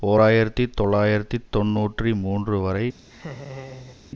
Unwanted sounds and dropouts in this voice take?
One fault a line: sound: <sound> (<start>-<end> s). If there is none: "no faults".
sound: laugh (3.0-4.0 s)